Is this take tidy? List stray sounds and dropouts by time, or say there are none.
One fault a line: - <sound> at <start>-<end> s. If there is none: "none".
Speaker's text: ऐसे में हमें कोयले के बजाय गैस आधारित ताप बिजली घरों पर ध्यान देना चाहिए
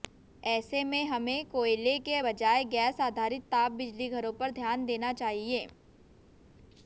none